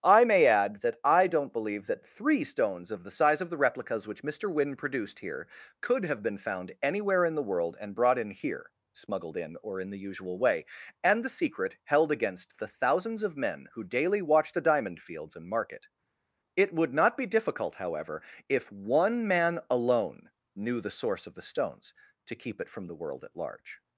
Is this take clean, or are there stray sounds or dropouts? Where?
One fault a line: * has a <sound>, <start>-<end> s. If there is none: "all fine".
all fine